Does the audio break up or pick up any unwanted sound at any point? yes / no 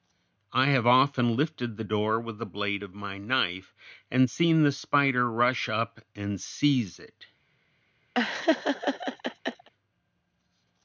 yes